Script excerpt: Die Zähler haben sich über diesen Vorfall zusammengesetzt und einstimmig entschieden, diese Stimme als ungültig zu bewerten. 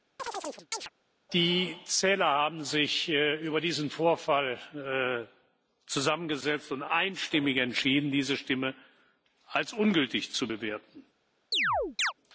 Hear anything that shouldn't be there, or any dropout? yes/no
yes